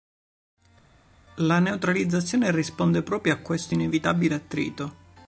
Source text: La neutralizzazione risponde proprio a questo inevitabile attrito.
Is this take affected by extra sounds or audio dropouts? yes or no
no